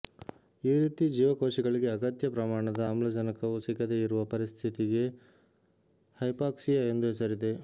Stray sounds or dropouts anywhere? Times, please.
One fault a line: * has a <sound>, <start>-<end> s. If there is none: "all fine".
all fine